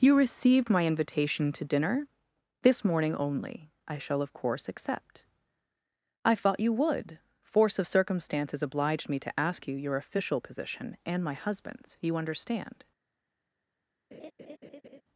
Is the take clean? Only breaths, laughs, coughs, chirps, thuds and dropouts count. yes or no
no